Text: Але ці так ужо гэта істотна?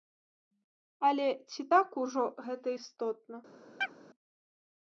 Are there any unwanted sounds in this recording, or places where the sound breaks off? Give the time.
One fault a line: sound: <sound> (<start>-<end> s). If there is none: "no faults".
sound: chirp (3.8-4.0 s)